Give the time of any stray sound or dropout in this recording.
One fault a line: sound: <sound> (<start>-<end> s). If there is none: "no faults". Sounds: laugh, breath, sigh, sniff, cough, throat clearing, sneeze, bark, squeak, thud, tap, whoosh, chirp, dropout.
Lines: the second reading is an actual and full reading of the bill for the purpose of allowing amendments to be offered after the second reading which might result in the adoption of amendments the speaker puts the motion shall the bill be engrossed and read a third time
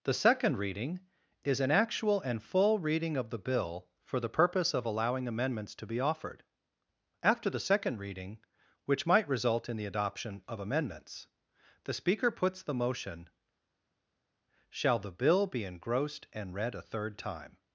no faults